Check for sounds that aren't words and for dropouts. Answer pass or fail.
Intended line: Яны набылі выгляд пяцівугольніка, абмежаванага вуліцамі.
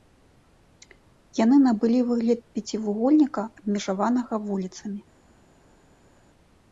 pass